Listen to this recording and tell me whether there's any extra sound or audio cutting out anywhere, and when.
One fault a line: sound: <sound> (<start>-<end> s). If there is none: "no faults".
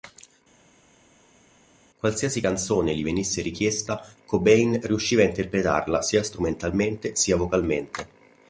no faults